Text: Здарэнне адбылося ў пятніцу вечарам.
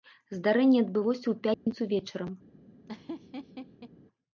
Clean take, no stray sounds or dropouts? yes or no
no